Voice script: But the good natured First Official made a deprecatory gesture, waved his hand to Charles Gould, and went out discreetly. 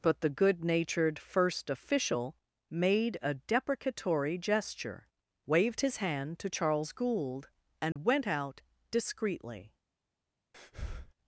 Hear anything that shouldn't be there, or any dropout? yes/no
yes